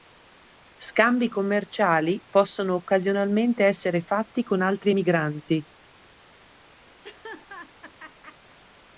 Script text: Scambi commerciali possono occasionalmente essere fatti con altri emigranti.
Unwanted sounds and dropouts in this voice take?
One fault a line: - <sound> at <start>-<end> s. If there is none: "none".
- laugh at 7.0-8.6 s